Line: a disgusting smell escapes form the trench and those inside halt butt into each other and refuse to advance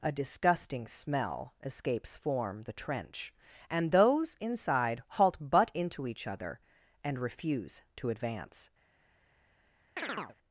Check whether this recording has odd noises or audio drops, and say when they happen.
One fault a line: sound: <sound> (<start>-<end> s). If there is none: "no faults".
sound: chirp (10.0-10.4 s)